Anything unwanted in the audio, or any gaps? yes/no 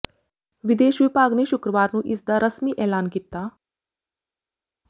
no